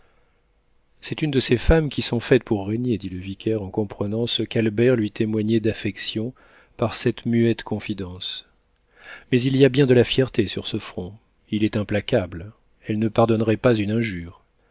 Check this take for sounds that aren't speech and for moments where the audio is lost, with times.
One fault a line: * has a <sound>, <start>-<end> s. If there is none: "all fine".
all fine